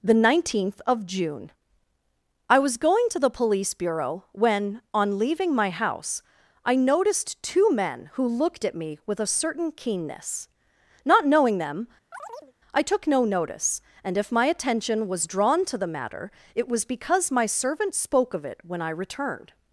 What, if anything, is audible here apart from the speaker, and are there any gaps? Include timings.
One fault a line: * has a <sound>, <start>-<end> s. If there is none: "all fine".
* has a chirp, 12.1-12.5 s